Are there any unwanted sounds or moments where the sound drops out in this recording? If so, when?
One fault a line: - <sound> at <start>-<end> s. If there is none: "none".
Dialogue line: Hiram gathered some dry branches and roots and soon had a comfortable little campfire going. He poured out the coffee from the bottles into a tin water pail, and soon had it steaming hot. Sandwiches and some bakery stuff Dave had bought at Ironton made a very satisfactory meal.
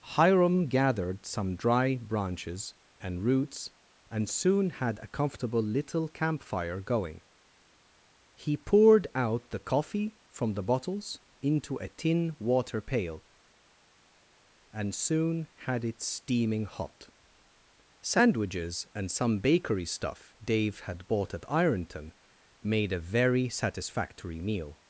none